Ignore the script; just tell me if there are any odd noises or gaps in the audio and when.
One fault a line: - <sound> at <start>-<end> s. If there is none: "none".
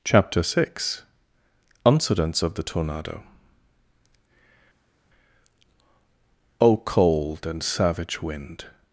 none